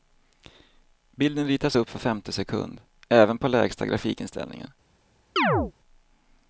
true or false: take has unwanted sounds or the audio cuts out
true